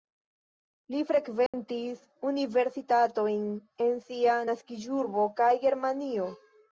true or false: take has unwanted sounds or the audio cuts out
true